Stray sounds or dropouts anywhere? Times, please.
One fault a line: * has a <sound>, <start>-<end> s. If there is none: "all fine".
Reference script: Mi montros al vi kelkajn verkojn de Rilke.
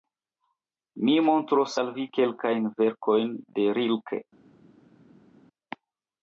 all fine